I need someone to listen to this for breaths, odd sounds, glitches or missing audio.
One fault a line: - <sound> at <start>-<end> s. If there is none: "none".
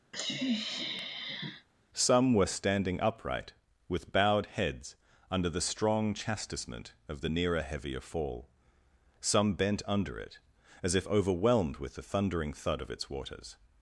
- sniff at 0.1-1.7 s